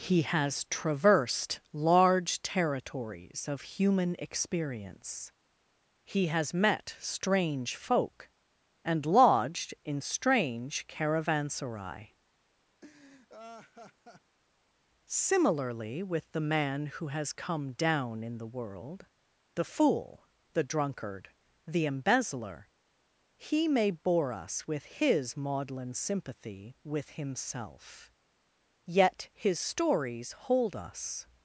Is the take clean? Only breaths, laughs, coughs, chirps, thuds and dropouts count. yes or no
no